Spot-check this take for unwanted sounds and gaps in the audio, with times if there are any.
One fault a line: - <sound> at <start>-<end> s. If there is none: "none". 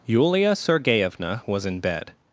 none